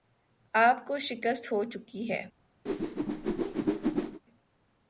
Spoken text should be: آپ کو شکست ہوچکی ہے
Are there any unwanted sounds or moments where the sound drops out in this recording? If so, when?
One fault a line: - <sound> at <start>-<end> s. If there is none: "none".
- whoosh at 2.7-4.2 s